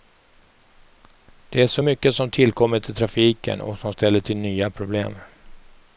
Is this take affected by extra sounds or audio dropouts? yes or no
no